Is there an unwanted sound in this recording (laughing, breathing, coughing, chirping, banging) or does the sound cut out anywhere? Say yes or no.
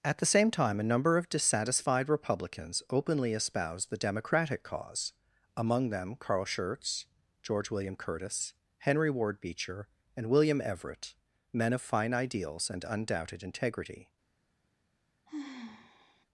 yes